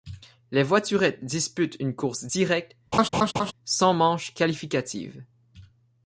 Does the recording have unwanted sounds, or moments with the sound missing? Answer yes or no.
yes